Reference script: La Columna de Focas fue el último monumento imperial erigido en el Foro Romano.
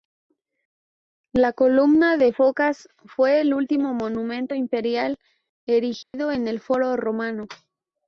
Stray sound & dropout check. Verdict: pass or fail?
fail